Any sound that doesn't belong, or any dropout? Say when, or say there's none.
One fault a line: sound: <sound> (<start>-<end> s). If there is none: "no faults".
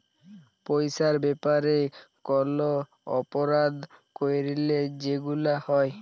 no faults